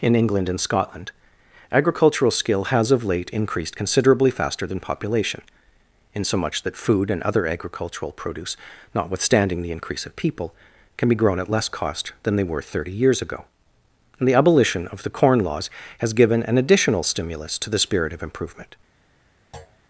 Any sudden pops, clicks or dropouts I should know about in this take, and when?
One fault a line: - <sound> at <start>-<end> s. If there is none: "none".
- thud at 19.5-19.8 s